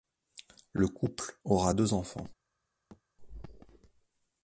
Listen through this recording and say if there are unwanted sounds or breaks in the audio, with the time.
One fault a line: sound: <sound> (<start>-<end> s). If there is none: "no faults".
sound: thud (2.9-3.0 s)